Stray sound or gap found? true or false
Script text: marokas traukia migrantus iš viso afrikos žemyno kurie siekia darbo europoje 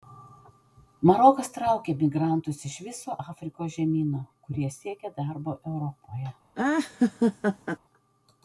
true